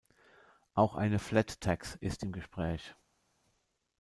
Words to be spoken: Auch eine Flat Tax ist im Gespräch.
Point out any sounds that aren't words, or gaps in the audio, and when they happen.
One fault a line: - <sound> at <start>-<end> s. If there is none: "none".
none